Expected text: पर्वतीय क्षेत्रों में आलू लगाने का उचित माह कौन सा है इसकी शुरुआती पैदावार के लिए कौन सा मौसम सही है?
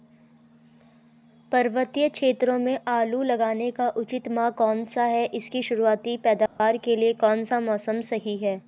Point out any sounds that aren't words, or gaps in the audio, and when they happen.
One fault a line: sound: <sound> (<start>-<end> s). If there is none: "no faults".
sound: dropout (6.5-6.6 s)